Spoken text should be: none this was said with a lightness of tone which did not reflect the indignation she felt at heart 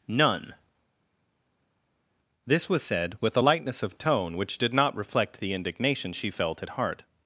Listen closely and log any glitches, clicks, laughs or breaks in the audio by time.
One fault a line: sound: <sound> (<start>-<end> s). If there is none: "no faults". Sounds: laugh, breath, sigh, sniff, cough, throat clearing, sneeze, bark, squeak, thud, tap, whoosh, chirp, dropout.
no faults